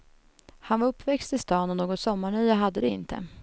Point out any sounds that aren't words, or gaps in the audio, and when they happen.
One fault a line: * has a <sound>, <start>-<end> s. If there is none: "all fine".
all fine